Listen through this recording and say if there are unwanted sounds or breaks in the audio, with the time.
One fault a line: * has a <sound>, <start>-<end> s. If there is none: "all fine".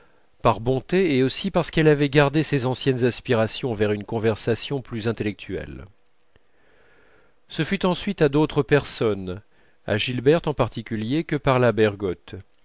all fine